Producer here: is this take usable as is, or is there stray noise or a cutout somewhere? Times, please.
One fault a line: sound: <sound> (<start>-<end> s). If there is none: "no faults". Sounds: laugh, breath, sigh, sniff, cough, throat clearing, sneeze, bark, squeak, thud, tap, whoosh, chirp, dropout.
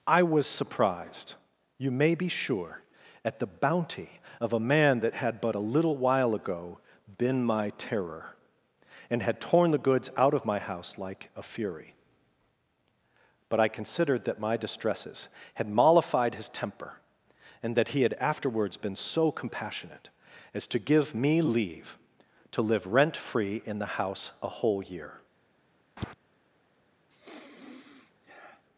sound: tap (26.0-26.1 s)
sound: sniff (27.1-28.6 s)